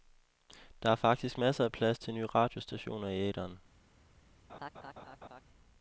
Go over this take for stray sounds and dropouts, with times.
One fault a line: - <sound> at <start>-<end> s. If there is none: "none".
- laugh at 4.5-5.4 s